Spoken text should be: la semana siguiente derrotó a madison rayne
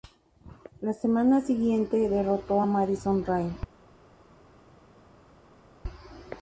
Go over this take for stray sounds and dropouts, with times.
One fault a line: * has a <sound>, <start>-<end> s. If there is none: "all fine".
all fine